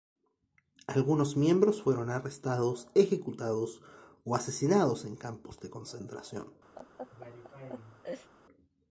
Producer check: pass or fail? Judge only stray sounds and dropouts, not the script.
fail